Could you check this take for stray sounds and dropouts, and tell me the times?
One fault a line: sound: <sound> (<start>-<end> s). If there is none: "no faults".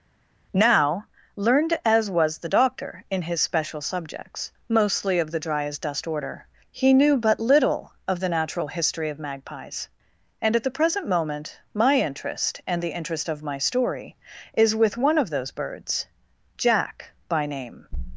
no faults